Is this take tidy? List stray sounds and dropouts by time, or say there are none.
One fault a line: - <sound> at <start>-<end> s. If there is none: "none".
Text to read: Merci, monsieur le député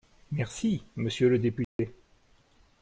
- dropout at 1.6-1.8 s